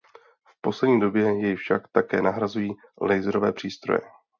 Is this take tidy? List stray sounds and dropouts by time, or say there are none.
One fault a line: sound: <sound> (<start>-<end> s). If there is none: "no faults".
no faults